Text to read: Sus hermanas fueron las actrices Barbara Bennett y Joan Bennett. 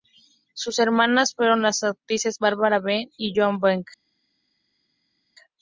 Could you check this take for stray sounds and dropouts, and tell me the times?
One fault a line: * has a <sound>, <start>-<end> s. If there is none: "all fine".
all fine